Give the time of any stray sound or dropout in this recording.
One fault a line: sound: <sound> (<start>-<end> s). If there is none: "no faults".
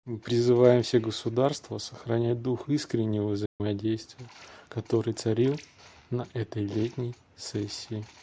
sound: dropout (3.5-3.6 s)